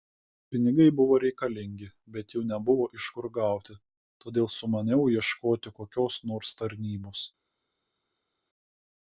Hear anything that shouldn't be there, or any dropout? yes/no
no